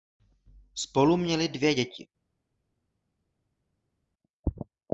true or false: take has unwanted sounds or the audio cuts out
false